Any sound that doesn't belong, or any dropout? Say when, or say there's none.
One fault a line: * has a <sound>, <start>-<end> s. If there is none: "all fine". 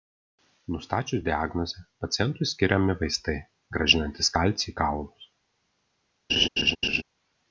* has a laugh, 6.3-7.0 s